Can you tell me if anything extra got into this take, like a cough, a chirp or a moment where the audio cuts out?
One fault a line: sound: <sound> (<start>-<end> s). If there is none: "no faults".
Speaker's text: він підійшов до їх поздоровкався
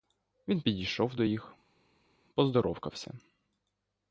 no faults